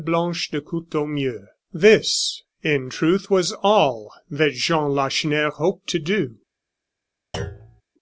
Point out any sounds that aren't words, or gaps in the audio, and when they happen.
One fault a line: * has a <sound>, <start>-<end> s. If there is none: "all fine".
* has a thud, 7.3-7.8 s